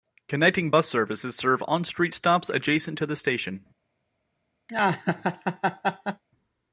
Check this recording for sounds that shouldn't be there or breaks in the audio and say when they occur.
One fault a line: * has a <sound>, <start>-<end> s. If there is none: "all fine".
* has a laugh, 4.7-6.2 s